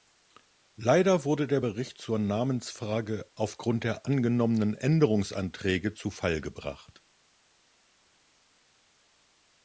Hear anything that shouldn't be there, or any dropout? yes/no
no